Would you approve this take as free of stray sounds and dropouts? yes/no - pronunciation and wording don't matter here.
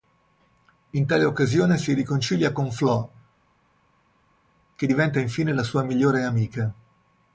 yes